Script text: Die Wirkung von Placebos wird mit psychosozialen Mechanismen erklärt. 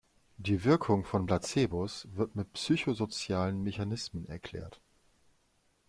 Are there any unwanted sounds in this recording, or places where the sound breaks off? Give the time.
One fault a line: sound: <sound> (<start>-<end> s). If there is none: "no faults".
no faults